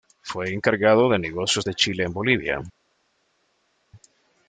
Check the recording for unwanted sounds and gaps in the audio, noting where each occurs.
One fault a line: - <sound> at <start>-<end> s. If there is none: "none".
none